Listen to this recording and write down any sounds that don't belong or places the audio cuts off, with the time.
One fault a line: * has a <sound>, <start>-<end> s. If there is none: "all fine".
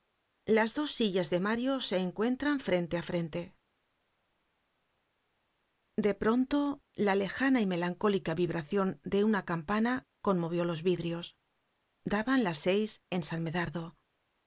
all fine